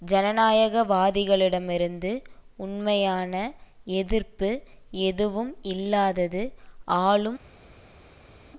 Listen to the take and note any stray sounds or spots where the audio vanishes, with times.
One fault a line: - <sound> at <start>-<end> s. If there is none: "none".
none